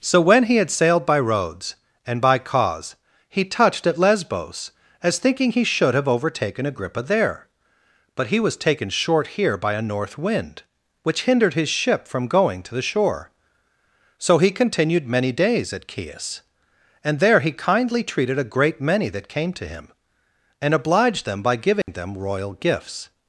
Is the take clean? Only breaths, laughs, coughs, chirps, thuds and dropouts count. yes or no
no